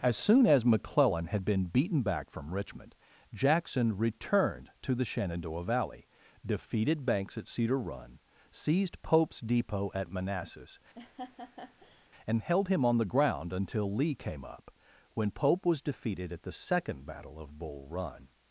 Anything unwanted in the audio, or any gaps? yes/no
yes